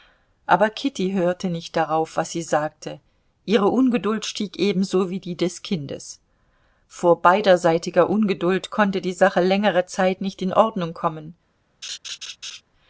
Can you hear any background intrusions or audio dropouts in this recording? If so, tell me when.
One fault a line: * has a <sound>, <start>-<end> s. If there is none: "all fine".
* has a laugh, 11.8-12.6 s